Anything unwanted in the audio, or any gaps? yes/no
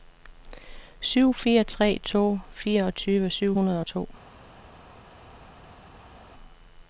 no